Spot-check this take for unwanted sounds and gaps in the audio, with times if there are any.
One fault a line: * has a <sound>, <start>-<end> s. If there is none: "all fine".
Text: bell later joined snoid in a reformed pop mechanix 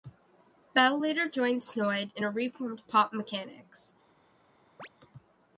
* has a chirp, 4.8-4.9 s